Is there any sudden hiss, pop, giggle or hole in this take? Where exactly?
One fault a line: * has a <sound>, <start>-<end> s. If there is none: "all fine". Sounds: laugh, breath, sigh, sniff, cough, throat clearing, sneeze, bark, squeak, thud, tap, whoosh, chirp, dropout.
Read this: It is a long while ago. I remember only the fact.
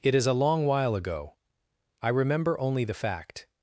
all fine